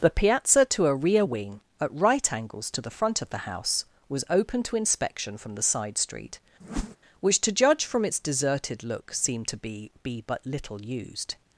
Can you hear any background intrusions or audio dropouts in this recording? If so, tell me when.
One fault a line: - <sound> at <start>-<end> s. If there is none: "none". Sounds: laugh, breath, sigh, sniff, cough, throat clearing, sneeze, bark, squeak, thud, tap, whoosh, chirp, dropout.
- whoosh at 6.6-7.0 s